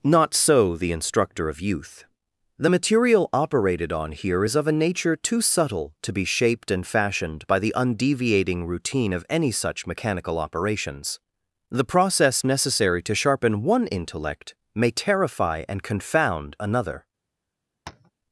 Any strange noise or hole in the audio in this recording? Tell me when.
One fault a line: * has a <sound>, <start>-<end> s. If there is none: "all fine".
* has a tap, 17.9-18.1 s